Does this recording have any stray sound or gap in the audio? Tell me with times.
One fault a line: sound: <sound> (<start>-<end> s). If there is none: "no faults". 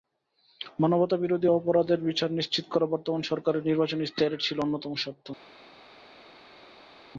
no faults